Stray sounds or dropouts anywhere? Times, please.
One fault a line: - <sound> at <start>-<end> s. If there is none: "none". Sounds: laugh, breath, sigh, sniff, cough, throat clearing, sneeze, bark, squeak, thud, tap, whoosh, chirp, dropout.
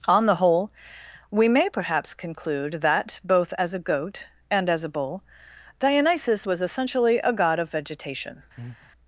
- breath at 8.6-8.9 s